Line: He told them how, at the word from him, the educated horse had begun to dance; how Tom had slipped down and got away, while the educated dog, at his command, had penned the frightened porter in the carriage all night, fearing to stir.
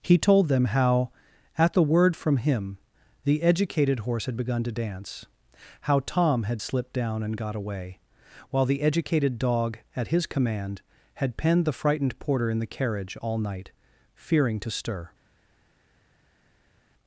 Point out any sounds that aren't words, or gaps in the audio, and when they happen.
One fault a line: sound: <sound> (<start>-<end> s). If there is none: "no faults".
no faults